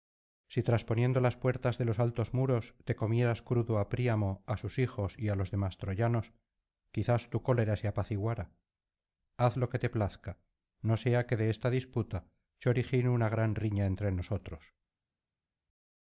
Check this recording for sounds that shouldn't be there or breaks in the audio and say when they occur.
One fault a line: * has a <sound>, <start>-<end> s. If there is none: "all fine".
all fine